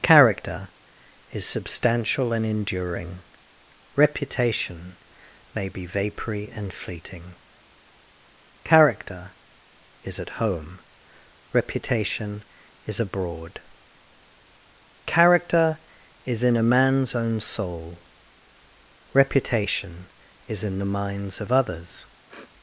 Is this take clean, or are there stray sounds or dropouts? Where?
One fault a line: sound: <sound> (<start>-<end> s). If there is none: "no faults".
sound: sniff (22.3-22.5 s)